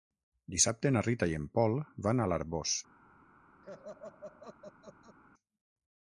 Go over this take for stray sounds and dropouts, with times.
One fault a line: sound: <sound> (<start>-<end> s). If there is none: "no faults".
sound: laugh (3.6-5.2 s)